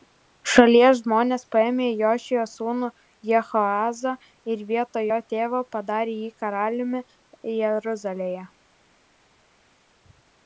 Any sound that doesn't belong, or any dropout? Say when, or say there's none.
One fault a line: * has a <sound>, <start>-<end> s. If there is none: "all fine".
all fine